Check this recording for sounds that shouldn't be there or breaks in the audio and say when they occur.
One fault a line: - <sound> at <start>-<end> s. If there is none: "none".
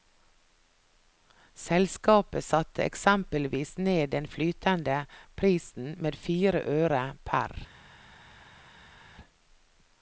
none